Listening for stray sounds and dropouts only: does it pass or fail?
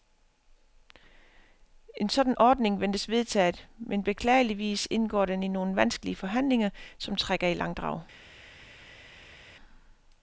pass